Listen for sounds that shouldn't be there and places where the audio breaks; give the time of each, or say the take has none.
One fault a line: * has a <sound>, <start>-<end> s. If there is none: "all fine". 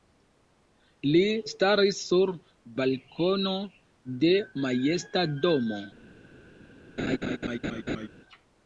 * has a laugh, 7.0-8.1 s